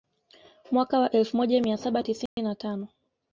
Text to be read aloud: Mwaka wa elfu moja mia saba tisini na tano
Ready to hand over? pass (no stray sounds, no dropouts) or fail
fail